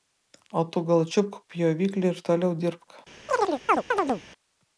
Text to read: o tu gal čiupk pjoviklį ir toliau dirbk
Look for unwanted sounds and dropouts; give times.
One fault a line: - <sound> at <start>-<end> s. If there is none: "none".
- chirp at 3.3-4.2 s